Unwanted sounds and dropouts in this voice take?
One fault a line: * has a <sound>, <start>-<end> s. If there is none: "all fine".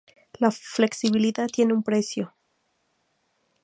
all fine